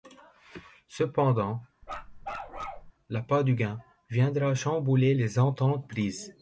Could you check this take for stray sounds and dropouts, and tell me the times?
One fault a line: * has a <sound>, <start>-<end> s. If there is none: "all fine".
* has a bark, 1.8-2.9 s